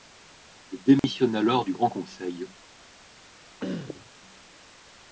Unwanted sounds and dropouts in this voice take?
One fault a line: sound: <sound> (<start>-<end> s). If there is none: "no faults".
sound: dropout (1.0-1.0 s)
sound: throat clearing (3.6-4.1 s)